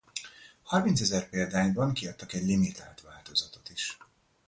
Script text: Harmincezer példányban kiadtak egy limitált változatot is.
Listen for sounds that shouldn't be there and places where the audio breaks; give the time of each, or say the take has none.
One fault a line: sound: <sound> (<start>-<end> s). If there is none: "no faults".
no faults